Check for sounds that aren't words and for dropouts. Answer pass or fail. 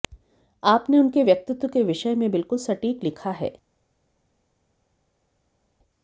pass